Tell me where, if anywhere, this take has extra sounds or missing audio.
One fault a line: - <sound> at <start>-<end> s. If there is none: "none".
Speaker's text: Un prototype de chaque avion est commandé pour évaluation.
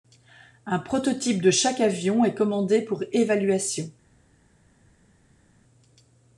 none